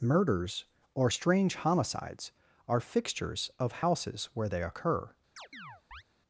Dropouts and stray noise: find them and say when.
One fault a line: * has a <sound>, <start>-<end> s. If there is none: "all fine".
* has a chirp, 5.4-6.0 s